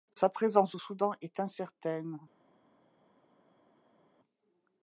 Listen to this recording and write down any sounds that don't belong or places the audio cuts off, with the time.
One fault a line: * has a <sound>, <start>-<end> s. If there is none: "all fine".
all fine